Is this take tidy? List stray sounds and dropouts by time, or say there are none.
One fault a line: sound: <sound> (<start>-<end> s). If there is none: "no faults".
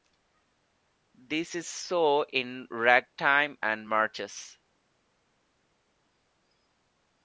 no faults